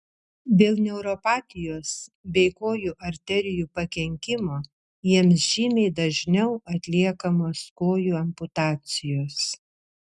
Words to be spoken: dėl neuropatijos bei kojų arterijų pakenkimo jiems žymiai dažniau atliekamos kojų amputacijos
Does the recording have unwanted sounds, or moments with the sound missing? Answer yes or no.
no